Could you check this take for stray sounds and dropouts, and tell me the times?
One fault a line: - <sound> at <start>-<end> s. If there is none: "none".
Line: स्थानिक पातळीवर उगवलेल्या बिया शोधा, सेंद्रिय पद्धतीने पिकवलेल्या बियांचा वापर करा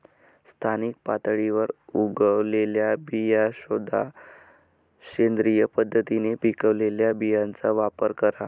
none